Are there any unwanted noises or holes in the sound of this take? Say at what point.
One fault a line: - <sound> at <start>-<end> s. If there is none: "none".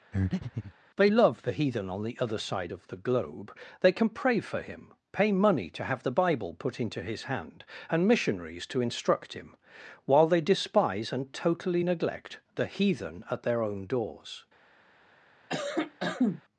- breath at 0.1-0.7 s
- cough at 15.5-16.4 s